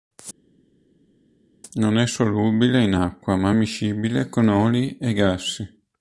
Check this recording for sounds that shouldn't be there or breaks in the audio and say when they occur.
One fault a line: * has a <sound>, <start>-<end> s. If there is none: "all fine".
all fine